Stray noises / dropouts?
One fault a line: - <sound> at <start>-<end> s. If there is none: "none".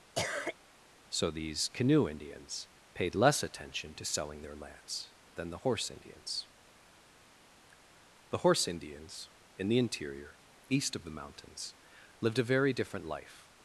- cough at 0.1-0.6 s